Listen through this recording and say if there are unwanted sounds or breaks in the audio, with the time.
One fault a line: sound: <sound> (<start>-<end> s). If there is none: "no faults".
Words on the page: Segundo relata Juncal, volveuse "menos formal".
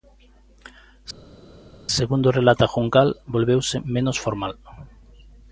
no faults